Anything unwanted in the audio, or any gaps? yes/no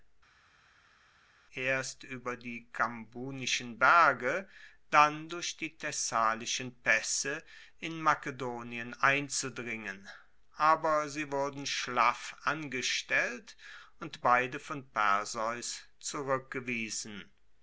no